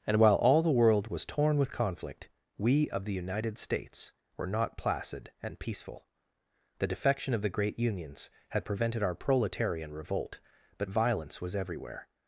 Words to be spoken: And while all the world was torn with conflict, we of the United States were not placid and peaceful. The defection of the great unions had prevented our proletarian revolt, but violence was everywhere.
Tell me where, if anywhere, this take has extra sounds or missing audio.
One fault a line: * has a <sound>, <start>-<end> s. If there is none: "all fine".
all fine